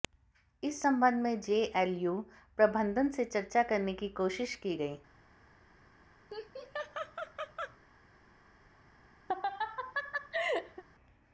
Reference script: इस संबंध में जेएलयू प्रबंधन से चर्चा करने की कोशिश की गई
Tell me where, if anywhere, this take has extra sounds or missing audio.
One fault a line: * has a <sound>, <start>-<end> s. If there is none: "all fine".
* has a laugh, 6.3-7.8 s
* has a laugh, 9.3-10.8 s